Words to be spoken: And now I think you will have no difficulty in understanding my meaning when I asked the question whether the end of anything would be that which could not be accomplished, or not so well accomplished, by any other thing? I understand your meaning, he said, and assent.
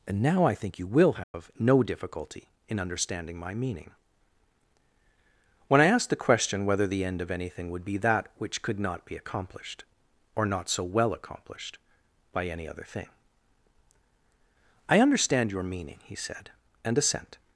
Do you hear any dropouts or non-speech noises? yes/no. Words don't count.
yes